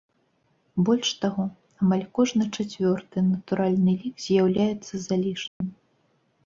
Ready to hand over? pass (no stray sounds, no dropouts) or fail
fail